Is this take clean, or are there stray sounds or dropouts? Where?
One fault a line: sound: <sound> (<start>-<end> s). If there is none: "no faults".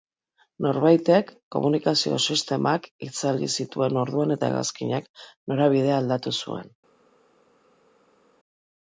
no faults